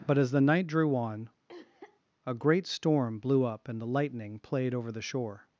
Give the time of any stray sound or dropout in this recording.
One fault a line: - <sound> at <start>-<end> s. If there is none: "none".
- cough at 1.5-2.0 s